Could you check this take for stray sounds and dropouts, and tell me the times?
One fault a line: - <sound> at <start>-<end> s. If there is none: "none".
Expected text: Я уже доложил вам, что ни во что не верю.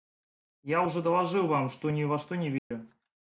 - dropout at 2.6-2.7 s